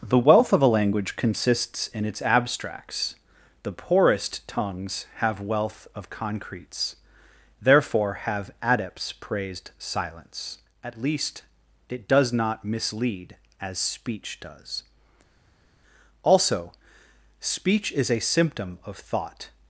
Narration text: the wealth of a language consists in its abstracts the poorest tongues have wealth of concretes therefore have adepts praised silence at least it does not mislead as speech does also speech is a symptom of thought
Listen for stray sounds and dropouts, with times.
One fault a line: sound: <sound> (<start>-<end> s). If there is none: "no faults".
no faults